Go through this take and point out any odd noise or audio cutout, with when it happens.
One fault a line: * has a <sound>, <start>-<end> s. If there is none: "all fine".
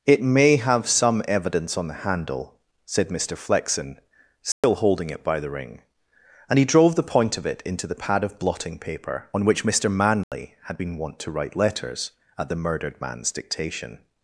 * has a dropout, 4.5-4.6 s
* has a dropout, 10.2-10.3 s